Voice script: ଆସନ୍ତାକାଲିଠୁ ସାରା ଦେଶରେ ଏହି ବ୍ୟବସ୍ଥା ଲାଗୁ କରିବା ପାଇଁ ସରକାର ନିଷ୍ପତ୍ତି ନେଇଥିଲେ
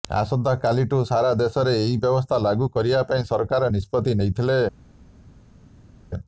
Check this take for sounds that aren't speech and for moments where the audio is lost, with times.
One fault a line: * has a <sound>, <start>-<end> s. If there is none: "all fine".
all fine